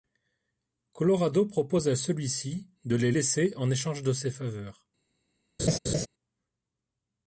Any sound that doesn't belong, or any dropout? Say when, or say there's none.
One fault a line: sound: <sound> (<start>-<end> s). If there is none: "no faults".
sound: laugh (5.6-6.1 s)